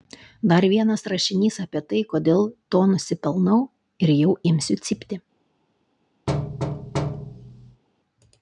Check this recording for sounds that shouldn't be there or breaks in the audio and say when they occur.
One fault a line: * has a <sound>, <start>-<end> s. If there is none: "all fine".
* has a thud, 6.3-7.8 s